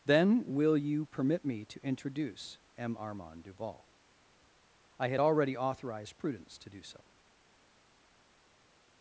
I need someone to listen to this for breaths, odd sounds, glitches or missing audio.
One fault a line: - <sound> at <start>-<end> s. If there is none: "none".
none